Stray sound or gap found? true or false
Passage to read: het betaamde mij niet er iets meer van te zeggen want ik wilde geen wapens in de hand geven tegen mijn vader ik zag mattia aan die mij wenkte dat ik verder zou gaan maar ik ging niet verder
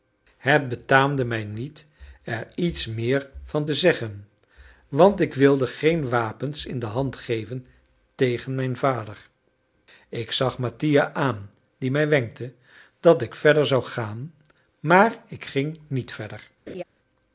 true